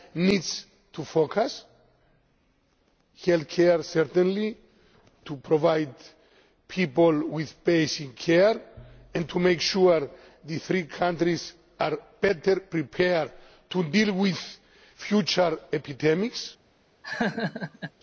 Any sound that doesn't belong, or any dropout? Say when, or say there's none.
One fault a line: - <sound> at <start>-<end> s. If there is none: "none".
- laugh at 17.0-17.9 s